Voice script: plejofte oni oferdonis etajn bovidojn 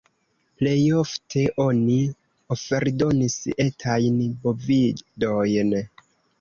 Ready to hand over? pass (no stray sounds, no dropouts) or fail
pass